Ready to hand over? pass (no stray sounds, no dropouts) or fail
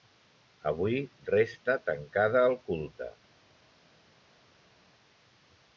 pass